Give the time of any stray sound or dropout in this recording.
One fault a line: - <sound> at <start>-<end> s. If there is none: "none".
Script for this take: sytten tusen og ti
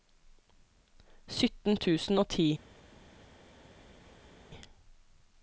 none